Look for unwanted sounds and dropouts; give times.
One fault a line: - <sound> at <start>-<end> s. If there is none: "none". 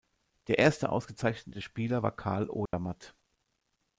- dropout at 2.7-2.7 s